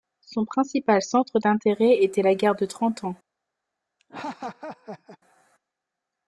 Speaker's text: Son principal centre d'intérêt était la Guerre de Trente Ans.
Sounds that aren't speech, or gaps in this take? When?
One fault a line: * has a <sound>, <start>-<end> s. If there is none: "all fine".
* has a laugh, 4.0-5.2 s